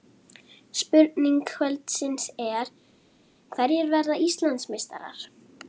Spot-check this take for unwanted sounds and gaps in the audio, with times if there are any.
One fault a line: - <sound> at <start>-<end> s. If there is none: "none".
none